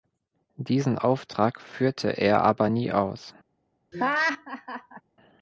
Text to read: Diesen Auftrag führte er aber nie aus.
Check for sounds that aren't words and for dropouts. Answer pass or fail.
fail